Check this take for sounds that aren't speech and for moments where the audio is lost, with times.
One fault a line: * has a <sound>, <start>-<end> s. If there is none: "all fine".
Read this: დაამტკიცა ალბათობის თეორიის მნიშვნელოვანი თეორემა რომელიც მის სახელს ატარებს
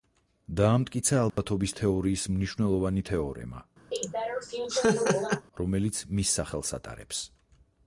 * has a dropout, 1.3-1.4 s
* has a laugh, 3.9-5.5 s